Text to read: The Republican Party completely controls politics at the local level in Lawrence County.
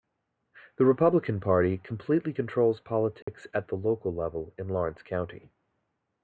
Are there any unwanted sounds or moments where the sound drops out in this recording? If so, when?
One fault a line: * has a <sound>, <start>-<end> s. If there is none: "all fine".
* has a dropout, 3.2-3.3 s